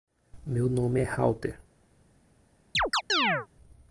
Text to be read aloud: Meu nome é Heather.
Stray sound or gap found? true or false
true